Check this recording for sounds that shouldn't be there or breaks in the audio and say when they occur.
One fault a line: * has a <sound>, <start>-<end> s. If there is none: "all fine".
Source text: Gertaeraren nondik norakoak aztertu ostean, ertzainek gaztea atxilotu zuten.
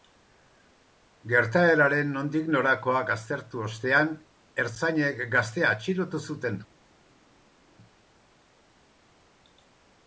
all fine